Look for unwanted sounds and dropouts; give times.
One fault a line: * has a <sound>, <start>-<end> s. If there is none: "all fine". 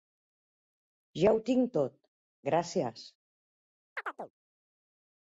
* has a chirp, 4.0-4.3 s